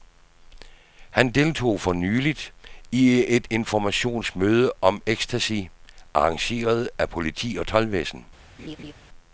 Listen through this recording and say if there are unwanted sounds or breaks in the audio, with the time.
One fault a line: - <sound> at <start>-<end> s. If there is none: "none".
- laugh at 8.6-8.9 s